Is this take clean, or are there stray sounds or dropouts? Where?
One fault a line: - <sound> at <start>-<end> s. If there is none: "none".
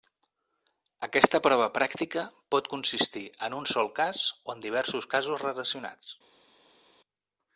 none